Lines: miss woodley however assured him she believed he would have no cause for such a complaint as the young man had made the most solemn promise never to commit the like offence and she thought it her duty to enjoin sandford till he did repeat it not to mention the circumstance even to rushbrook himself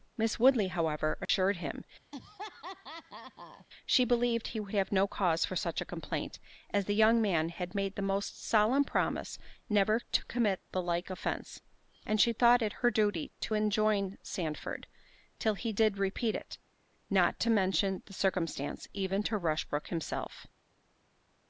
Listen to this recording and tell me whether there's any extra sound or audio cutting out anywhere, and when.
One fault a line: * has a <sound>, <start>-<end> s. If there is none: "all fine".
* has a dropout, 1.3-1.3 s
* has a laugh, 2.1-3.7 s